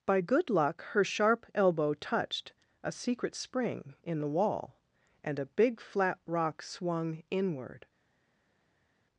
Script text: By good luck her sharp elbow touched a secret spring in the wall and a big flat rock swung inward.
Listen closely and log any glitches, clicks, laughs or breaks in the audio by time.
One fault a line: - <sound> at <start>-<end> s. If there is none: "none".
none